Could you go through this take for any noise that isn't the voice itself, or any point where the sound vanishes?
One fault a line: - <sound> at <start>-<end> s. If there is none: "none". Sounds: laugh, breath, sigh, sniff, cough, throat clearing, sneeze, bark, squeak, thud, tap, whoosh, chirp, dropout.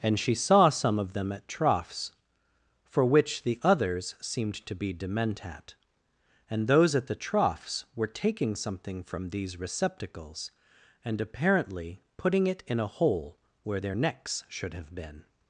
none